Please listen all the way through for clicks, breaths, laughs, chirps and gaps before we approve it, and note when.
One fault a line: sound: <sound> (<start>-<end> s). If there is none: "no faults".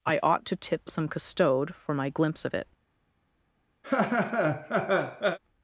sound: laugh (3.8-5.4 s)